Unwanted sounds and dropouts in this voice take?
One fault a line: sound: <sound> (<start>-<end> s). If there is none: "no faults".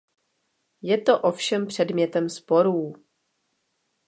no faults